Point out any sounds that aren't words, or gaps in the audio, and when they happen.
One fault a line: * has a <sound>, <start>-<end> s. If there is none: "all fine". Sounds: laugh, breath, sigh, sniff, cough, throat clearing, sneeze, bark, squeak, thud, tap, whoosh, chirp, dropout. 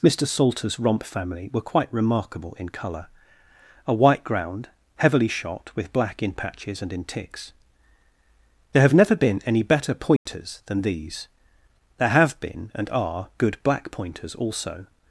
* has a dropout, 10.2-10.3 s